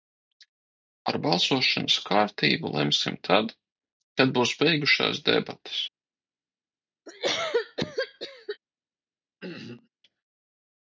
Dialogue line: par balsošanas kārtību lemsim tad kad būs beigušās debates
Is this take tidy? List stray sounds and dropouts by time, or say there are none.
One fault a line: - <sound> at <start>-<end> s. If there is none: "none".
- cough at 7.1-8.6 s
- throat clearing at 9.4-9.9 s